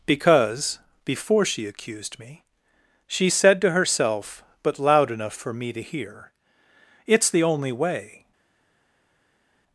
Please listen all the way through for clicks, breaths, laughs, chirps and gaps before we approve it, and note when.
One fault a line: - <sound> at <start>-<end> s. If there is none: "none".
none